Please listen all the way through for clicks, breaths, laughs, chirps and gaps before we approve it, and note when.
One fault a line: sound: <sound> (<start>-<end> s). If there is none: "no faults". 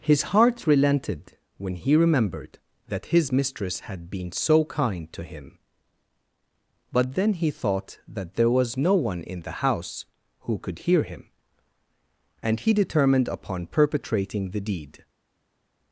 no faults